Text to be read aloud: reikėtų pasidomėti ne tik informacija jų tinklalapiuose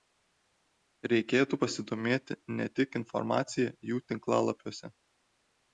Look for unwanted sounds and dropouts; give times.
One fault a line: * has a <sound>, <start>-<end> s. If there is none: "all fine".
all fine